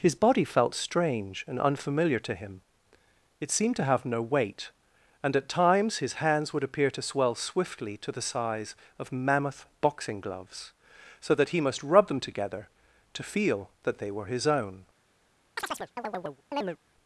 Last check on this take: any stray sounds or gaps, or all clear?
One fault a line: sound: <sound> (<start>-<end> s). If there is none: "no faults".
sound: chirp (15.6-16.8 s)